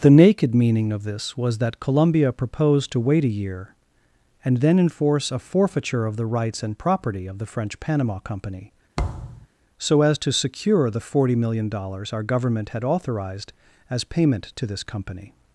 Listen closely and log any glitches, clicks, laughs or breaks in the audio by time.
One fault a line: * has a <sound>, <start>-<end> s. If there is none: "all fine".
* has a thud, 9.0-9.5 s